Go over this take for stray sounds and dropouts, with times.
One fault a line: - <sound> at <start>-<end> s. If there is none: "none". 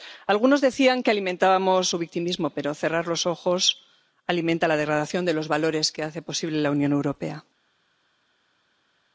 none